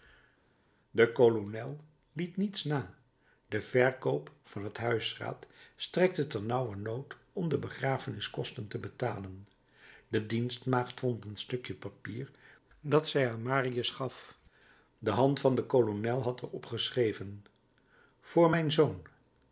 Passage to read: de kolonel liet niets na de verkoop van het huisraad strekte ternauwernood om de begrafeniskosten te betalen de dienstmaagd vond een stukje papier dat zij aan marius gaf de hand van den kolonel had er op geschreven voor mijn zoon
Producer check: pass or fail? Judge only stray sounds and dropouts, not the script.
pass